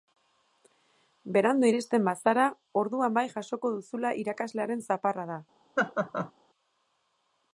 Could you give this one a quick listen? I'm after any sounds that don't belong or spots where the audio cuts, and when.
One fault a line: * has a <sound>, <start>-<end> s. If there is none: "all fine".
* has a laugh, 5.8-6.3 s